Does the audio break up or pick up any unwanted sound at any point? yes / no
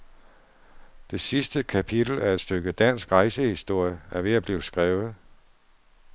no